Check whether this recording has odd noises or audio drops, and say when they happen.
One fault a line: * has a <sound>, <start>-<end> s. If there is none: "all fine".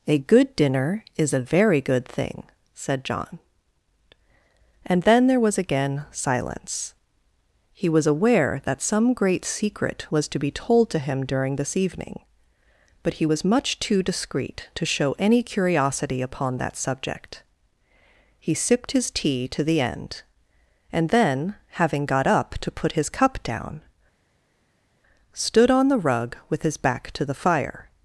all fine